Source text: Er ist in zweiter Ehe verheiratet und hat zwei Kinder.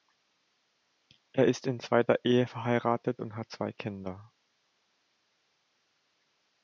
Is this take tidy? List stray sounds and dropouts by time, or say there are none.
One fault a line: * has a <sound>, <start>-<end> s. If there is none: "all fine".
all fine